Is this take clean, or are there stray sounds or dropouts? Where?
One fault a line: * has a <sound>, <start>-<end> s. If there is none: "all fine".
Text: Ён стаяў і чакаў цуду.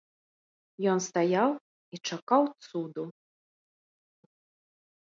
all fine